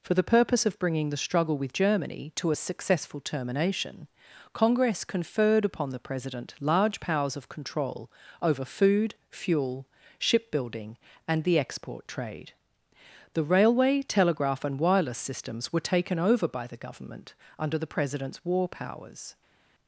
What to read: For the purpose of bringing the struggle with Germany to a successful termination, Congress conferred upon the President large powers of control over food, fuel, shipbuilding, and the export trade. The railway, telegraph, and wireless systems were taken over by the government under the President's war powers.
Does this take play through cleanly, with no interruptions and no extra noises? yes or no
yes